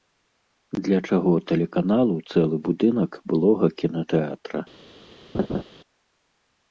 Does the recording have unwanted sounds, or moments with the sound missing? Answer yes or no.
yes